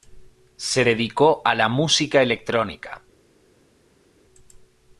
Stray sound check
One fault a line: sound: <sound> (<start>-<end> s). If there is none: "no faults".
no faults